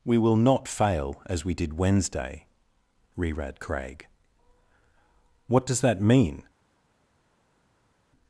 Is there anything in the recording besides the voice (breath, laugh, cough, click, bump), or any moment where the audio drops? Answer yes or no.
no